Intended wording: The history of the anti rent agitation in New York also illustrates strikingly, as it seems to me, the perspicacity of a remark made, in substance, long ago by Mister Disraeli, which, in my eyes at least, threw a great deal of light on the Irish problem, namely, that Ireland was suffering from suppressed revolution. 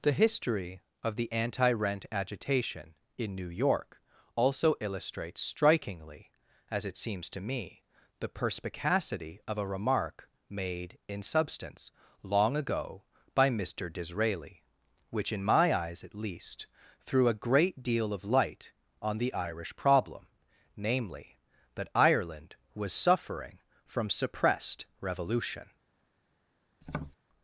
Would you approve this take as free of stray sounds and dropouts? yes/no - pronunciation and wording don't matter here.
no